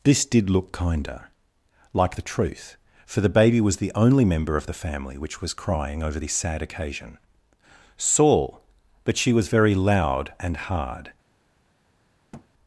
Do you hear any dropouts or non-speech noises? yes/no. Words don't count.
yes